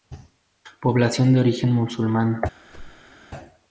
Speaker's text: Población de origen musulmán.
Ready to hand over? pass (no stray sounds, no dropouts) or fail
fail